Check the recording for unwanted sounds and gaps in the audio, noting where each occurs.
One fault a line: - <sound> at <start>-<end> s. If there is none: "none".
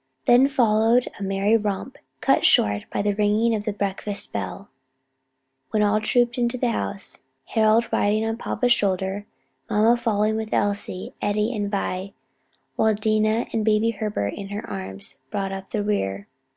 none